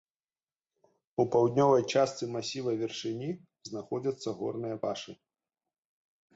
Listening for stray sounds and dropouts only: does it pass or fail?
pass